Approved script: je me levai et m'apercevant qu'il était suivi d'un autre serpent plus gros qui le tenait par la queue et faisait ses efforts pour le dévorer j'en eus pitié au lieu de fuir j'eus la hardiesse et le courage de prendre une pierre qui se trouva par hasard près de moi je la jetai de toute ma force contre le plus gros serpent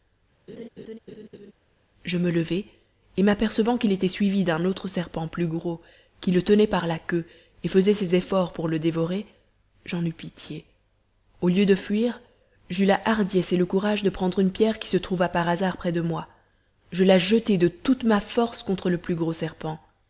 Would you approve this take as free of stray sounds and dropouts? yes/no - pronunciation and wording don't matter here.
no